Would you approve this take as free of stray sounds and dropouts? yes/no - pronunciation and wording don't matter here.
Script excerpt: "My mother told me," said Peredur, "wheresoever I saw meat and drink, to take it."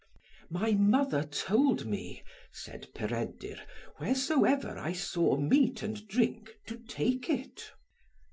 yes